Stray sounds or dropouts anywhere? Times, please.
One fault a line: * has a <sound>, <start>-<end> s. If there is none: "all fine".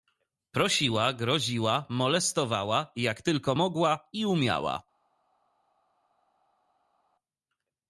all fine